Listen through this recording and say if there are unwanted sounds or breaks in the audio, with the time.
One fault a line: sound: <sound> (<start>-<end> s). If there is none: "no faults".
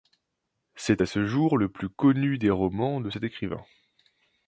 no faults